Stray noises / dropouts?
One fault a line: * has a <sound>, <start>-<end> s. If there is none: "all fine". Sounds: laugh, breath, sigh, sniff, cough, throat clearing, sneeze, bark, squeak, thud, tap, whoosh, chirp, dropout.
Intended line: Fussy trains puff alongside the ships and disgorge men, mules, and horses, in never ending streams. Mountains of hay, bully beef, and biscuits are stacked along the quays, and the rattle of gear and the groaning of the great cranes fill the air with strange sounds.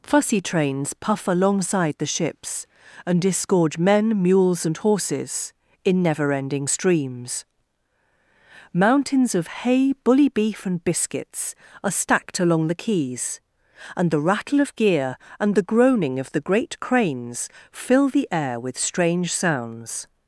all fine